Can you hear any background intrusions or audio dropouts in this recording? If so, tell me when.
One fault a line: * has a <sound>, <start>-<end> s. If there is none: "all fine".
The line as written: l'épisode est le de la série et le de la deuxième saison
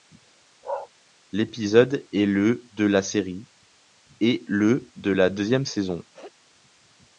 * has a bark, 0.6-0.9 s
* has a sneeze, 6.1-6.3 s